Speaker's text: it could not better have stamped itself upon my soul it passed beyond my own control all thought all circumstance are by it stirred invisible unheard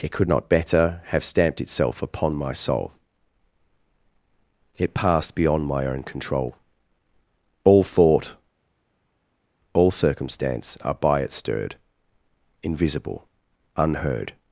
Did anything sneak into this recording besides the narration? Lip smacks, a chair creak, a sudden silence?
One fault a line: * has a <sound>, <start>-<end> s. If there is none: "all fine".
all fine